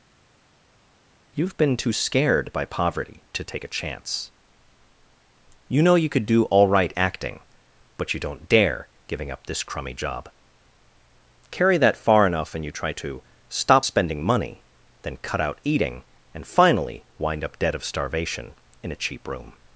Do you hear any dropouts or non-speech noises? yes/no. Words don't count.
no